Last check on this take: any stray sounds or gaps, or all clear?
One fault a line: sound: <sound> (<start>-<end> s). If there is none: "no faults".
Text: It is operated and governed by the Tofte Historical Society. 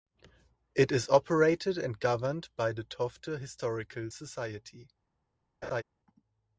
sound: laugh (5.6-5.8 s)